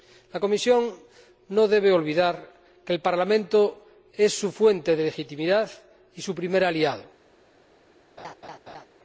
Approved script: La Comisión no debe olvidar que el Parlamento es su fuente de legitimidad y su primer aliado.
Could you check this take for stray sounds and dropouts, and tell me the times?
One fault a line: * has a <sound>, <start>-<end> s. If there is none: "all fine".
* has a laugh, 8.2-8.9 s